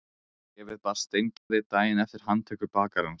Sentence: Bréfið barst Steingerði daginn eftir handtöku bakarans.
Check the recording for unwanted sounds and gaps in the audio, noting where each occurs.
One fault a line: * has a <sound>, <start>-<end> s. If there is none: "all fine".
* has a dropout, 1.4-1.5 s